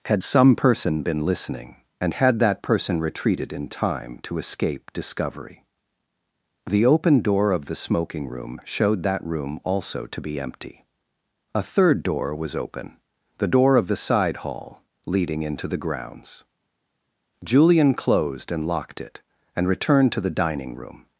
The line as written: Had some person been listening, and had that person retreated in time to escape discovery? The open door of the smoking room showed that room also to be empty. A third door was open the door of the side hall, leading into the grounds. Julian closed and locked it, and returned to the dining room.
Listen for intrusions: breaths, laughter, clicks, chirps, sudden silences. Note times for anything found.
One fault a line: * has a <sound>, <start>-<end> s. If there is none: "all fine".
all fine